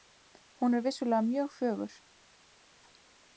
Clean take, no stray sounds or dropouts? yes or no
yes